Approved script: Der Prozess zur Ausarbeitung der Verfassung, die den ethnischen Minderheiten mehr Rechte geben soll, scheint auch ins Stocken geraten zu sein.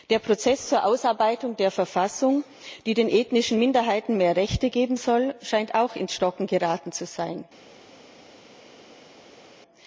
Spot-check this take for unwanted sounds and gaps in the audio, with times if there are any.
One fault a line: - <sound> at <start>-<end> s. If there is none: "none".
none